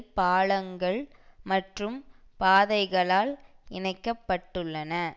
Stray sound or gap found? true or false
false